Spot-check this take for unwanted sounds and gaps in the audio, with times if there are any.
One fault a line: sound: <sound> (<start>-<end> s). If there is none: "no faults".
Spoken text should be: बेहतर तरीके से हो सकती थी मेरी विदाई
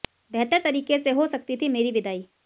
no faults